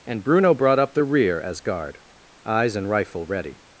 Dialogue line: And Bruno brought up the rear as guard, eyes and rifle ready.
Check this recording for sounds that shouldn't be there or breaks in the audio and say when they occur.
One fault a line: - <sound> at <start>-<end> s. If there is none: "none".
none